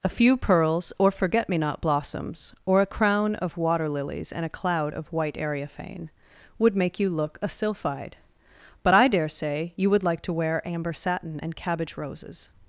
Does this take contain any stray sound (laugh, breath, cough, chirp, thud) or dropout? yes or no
no